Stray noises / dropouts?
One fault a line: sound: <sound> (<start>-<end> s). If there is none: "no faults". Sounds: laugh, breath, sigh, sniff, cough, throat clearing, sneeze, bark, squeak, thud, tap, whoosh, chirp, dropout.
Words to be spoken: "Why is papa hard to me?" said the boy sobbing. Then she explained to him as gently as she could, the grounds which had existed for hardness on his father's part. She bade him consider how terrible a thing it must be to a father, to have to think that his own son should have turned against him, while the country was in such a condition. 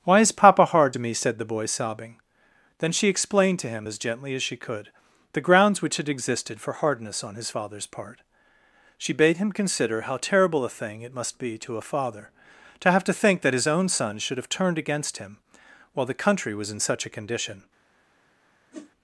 sound: whoosh (18.7-18.9 s)